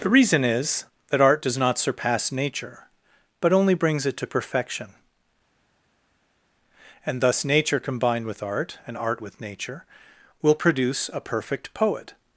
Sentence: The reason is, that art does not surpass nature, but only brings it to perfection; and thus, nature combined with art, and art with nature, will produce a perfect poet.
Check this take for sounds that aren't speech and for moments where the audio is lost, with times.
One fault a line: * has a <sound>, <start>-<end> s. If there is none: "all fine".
all fine